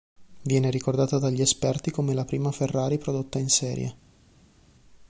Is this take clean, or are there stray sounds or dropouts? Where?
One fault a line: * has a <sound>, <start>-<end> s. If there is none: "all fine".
all fine